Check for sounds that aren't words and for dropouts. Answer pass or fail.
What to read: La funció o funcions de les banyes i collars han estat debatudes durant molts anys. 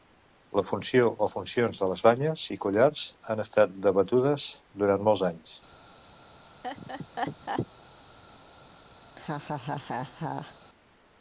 fail